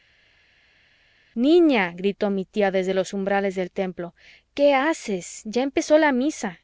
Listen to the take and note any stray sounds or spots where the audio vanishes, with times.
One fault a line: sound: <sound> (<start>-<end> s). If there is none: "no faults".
no faults